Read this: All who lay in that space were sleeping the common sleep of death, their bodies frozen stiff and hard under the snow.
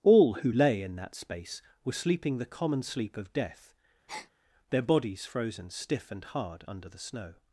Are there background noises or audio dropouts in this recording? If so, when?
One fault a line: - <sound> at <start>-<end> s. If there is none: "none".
- breath at 4.1-4.3 s